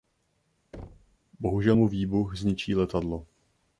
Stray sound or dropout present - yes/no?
yes